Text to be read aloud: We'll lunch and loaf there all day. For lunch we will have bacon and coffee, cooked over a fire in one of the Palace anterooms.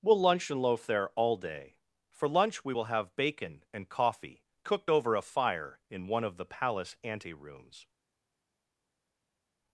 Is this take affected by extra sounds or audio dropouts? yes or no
no